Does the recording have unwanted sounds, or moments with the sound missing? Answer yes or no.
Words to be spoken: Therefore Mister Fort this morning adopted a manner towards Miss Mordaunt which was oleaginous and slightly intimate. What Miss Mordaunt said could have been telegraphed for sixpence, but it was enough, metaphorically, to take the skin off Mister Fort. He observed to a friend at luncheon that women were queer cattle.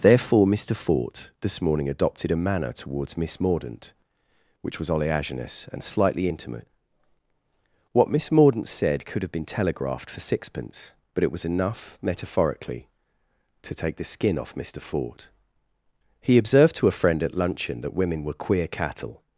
no